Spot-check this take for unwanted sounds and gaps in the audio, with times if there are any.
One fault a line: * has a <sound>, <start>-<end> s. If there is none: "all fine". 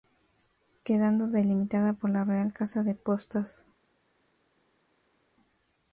all fine